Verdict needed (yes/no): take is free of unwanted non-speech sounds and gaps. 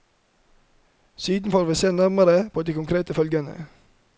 yes